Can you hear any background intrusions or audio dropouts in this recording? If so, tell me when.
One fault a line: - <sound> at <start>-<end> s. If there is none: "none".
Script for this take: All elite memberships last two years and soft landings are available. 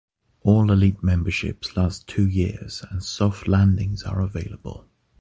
none